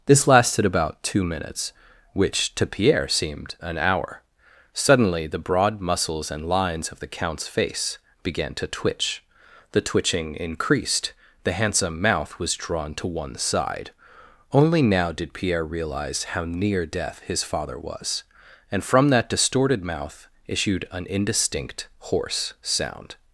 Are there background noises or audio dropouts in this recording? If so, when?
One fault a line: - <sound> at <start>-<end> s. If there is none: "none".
none